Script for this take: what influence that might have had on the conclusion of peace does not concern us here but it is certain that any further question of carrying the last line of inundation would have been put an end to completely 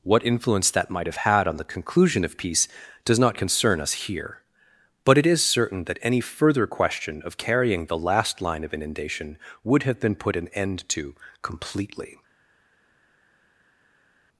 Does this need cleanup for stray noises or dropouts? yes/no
no